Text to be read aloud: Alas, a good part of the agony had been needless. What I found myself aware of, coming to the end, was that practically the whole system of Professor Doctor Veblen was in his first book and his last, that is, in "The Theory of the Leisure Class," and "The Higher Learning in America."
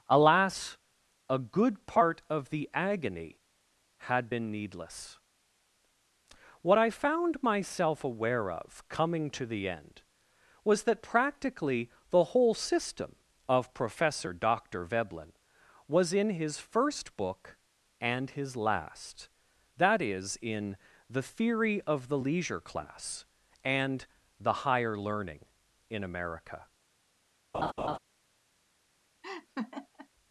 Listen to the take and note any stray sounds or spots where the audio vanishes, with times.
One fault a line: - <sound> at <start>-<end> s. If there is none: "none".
- laugh at 27.5-28.0 s
- laugh at 29.2-30.1 s